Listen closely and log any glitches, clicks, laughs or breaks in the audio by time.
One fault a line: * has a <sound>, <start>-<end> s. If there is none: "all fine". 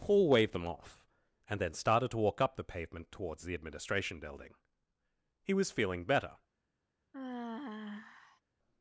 * has a sigh, 7.1-8.4 s